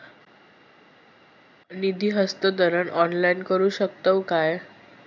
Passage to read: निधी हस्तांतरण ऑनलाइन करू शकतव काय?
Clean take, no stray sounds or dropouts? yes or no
yes